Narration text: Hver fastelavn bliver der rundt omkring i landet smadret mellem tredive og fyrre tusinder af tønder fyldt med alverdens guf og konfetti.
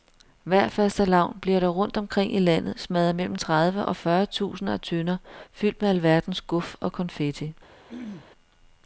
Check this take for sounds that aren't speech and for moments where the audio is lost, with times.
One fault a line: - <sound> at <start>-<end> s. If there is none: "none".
- throat clearing at 7.9-8.3 s